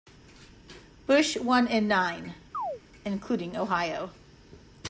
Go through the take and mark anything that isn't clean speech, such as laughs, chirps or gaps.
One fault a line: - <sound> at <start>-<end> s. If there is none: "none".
- chirp at 2.5-2.8 s